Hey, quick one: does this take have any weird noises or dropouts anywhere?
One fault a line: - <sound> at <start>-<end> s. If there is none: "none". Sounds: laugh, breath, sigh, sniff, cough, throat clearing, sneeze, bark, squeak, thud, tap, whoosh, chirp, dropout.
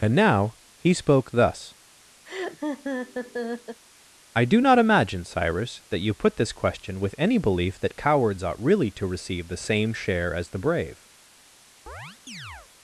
- laugh at 2.3-3.8 s
- chirp at 11.9-12.7 s